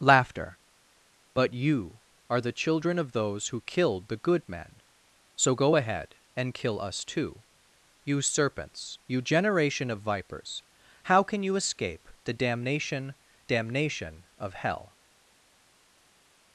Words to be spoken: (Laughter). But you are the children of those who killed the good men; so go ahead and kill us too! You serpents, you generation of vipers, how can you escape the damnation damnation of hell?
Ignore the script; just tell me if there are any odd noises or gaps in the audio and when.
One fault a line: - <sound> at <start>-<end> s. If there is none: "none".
none